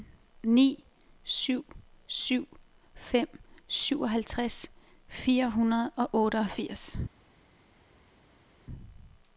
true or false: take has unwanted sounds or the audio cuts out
false